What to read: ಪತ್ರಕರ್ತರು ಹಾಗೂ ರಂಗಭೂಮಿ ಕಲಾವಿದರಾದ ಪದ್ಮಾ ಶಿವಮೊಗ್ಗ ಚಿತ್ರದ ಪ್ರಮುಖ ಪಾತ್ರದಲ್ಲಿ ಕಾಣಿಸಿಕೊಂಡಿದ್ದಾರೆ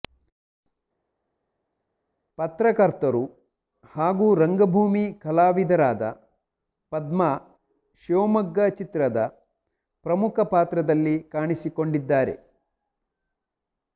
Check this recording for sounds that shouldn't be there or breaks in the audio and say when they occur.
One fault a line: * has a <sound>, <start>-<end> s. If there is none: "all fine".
all fine